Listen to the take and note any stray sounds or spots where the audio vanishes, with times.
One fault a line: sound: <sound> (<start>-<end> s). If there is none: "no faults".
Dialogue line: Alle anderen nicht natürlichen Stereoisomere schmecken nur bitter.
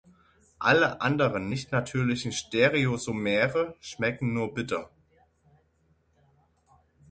no faults